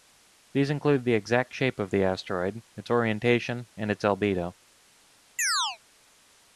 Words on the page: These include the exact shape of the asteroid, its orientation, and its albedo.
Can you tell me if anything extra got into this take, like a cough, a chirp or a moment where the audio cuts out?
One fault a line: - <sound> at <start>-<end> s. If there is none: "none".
- chirp at 5.4-5.8 s